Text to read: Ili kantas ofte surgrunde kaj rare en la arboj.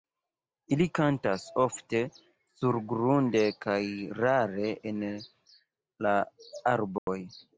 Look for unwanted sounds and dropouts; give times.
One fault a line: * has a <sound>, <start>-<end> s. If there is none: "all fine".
* has a dropout, 7.0-7.1 s